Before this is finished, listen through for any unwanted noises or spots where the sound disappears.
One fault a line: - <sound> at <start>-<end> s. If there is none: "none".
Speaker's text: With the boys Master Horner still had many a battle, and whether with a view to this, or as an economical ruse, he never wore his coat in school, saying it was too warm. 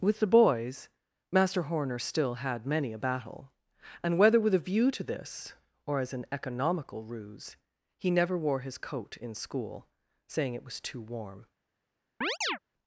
- chirp at 12.2-12.6 s